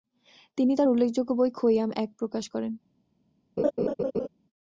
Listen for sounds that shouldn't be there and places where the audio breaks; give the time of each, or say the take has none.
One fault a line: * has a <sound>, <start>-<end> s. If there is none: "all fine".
* has a laugh, 3.6-4.3 s